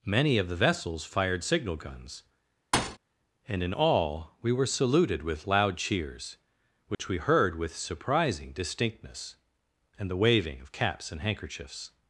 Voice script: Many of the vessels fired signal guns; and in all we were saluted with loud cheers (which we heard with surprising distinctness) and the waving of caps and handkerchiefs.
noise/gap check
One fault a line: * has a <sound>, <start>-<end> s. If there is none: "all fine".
* has a thud, 2.7-3.0 s
* has a dropout, 6.9-7.0 s